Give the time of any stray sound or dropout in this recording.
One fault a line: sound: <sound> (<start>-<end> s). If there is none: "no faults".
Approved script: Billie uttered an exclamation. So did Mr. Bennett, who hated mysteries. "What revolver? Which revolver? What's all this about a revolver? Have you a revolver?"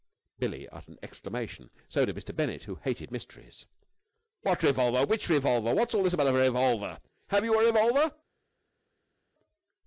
no faults